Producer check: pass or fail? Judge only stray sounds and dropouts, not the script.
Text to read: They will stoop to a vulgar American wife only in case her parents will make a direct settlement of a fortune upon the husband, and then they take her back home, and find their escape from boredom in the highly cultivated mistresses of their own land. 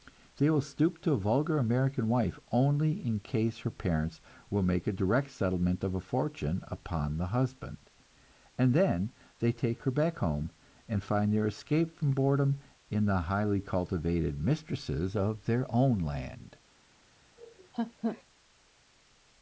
fail